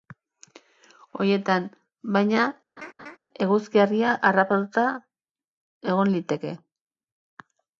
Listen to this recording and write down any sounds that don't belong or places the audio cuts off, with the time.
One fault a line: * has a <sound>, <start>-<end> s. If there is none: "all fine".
* has a laugh, 2.8-3.2 s